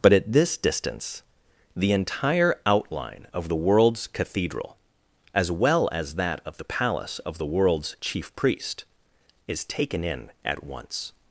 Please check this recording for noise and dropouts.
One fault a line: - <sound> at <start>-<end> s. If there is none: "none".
none